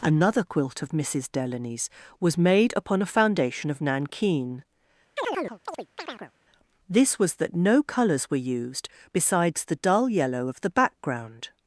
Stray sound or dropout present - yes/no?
yes